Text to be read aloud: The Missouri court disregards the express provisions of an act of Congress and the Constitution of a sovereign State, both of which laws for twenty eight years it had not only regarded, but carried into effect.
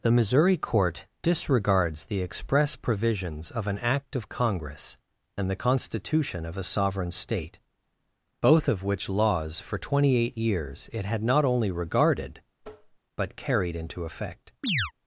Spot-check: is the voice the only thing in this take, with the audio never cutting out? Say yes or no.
no